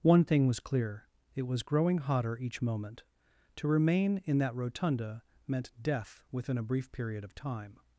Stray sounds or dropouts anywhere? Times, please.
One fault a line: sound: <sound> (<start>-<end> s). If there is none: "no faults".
no faults